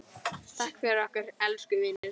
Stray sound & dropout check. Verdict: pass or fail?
fail